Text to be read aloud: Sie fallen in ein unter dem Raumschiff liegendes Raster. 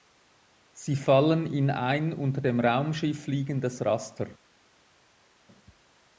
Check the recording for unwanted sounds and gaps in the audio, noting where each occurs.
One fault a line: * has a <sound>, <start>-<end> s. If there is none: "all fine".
all fine